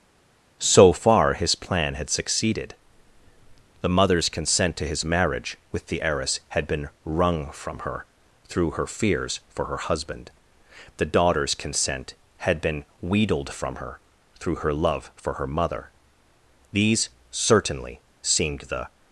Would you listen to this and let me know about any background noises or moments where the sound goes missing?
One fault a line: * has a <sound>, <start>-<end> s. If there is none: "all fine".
all fine